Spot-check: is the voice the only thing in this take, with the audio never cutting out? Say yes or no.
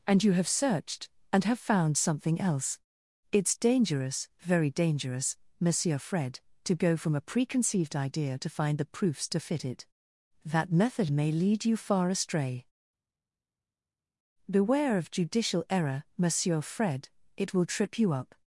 yes